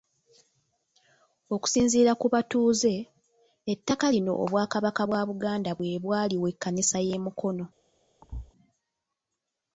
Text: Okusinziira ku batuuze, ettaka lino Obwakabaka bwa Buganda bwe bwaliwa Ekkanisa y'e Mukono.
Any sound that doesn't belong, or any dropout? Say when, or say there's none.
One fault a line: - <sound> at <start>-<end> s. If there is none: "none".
- thud at 8.2-8.5 s